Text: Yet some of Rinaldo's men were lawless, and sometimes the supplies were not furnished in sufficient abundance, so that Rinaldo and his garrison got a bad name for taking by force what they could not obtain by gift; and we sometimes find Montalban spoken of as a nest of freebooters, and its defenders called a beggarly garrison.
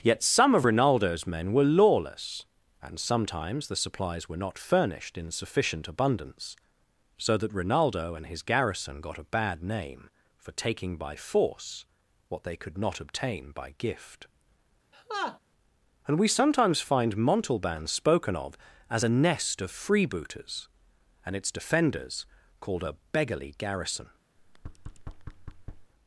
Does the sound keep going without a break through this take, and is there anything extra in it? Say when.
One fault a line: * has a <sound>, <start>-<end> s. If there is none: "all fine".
* has a laugh, 14.9-15.4 s
* has a thud, 24.4-25.9 s